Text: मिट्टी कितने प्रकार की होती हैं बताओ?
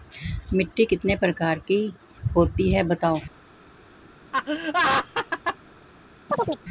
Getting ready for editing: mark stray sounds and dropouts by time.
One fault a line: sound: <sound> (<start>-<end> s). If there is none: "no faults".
sound: laugh (4.3-5.6 s)
sound: chirp (6.3-6.6 s)